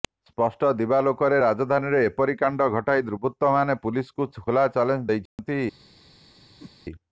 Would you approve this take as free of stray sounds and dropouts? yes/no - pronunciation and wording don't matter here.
no